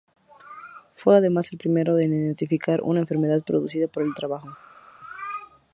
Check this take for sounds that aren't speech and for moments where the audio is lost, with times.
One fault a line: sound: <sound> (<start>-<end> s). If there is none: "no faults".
no faults